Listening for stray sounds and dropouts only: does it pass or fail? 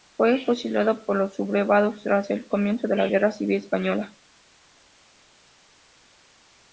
pass